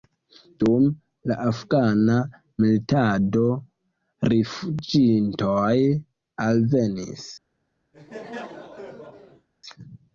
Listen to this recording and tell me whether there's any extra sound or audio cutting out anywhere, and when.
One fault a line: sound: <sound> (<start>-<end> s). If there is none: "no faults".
sound: laugh (7.9-9.5 s)